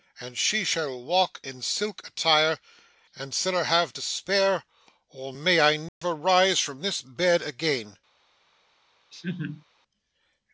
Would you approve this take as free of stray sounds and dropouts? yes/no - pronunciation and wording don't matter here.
no